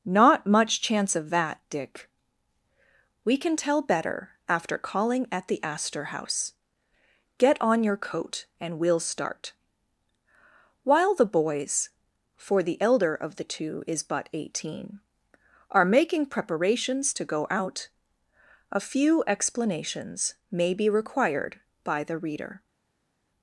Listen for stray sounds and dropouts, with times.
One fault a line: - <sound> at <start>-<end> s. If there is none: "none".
none